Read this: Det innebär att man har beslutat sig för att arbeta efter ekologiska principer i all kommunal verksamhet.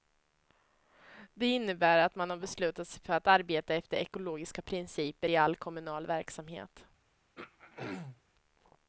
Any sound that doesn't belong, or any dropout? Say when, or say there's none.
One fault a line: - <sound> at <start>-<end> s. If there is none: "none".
- throat clearing at 7.4-8.2 s